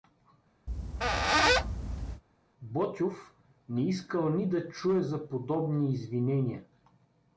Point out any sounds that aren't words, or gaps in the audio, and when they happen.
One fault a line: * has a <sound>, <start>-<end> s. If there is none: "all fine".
* has a squeak, 0.7-2.2 s